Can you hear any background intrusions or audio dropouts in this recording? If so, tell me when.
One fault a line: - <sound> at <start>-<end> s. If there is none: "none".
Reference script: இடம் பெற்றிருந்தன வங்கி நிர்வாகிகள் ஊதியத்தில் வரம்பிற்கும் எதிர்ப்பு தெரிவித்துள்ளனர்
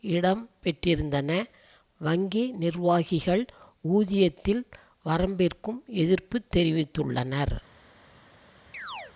- chirp at 8.7-9.1 s